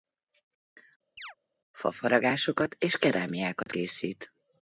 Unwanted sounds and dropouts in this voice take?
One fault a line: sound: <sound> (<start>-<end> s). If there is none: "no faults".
sound: chirp (1.2-1.3 s)
sound: dropout (3.6-3.7 s)